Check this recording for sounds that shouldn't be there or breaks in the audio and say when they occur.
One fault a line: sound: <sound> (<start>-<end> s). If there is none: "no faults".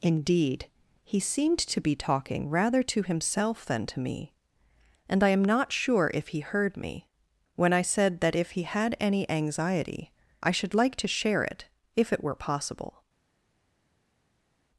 no faults